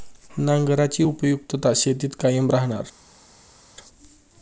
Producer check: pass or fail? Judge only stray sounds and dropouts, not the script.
pass